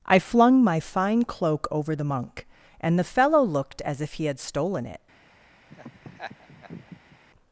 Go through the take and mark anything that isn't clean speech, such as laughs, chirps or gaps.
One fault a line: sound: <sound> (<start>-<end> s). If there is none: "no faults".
sound: laugh (5.7-7.2 s)